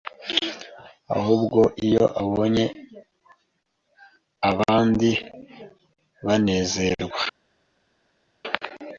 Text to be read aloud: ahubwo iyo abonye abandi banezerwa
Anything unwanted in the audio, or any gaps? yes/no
no